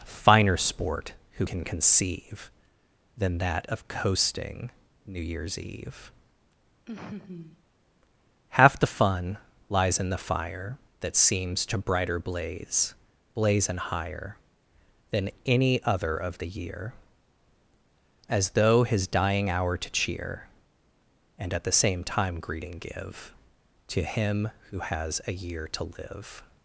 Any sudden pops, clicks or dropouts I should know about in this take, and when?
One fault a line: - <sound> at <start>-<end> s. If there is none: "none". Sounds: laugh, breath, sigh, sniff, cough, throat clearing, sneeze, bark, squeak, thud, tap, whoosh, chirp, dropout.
- laugh at 6.9-7.6 s